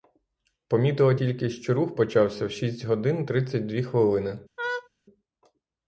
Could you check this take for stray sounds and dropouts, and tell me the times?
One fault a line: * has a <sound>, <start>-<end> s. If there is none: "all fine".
* has a laugh, 4.6-4.9 s